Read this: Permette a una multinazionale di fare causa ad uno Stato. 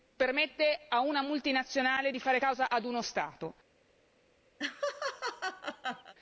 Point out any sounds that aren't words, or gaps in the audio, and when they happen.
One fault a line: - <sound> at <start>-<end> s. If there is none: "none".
- laugh at 4.6-6.1 s